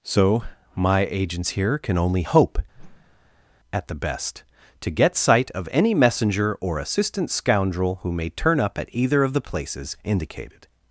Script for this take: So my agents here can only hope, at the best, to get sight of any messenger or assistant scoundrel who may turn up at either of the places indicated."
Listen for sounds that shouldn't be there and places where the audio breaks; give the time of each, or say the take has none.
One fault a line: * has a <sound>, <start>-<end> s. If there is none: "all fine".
* has a whoosh, 2.7-3.5 s